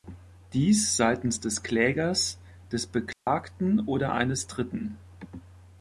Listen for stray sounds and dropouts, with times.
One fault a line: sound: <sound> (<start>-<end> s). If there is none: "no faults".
sound: dropout (3.1-3.3 s)